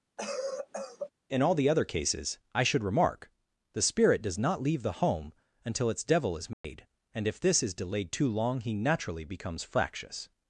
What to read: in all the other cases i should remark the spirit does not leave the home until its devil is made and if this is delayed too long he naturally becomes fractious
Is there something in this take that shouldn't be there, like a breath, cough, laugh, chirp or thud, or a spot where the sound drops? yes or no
yes